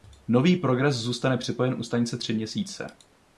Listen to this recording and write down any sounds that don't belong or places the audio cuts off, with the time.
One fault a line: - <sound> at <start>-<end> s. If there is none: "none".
none